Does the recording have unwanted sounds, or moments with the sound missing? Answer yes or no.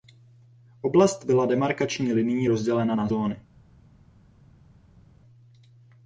no